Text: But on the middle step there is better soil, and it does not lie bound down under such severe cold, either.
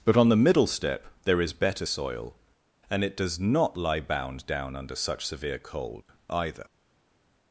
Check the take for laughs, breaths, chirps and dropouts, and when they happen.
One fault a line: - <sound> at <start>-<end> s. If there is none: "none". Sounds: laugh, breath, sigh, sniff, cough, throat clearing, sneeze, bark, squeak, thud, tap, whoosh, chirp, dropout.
none